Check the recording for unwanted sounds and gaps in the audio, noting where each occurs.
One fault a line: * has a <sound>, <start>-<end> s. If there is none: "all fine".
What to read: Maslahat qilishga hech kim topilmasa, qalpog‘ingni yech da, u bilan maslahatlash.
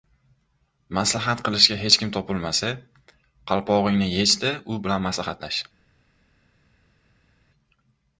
all fine